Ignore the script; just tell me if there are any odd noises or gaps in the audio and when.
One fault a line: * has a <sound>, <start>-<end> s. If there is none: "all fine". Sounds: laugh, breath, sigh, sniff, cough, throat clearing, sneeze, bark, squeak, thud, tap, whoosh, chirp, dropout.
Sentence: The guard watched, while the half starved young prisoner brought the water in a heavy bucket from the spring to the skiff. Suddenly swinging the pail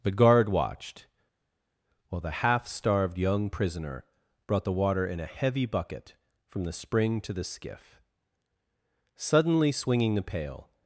all fine